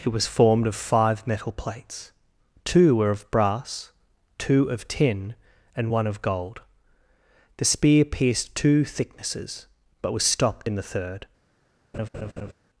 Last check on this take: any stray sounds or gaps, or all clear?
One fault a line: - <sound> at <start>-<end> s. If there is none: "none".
- laugh at 11.9-12.5 s